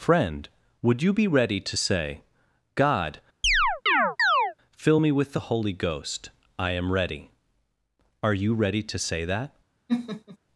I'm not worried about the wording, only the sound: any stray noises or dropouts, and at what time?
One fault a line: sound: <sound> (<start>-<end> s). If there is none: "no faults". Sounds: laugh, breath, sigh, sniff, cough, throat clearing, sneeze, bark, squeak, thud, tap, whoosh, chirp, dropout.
sound: chirp (3.4-4.5 s)
sound: laugh (9.9-10.4 s)